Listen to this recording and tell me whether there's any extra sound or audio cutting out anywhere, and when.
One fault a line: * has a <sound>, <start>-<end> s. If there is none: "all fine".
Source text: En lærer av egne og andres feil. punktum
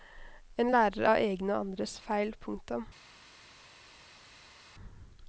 all fine